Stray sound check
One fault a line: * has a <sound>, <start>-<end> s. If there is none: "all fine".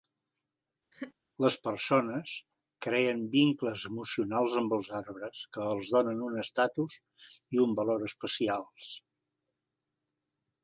* has a laugh, 0.9-1.1 s